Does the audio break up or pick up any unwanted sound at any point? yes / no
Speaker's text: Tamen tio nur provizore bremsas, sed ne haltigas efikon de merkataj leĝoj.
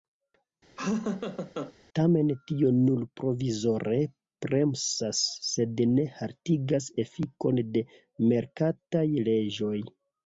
yes